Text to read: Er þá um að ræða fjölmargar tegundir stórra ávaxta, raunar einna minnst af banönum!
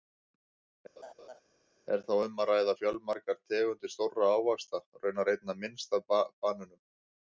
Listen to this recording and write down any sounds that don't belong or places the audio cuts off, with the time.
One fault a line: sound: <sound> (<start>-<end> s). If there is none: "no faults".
sound: laugh (1.0-1.4 s)